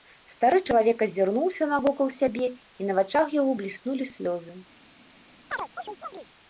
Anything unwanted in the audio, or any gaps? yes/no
yes